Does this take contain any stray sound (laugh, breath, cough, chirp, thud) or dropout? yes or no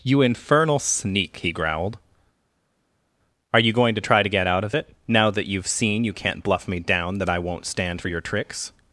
no